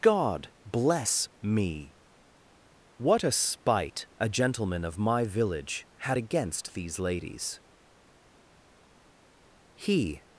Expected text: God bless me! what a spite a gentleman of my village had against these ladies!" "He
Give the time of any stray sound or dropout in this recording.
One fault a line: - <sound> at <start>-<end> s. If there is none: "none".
none